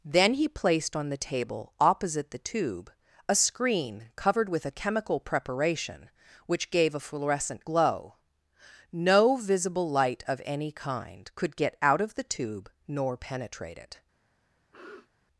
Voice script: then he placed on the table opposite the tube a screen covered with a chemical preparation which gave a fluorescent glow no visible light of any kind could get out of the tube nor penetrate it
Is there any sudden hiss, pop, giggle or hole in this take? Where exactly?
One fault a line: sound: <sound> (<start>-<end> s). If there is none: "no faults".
sound: sniff (14.7-15.1 s)